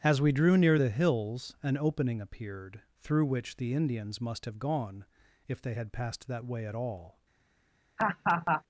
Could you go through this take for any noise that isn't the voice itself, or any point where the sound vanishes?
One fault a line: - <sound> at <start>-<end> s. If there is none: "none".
- laugh at 8.0-8.6 s